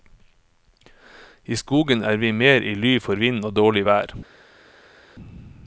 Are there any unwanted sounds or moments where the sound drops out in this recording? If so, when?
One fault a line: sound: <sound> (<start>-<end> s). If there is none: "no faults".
no faults